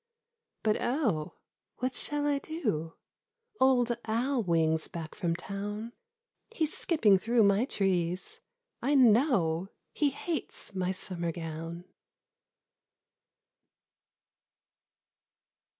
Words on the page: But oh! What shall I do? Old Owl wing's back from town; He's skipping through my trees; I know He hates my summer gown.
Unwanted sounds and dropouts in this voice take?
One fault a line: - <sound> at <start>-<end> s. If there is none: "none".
none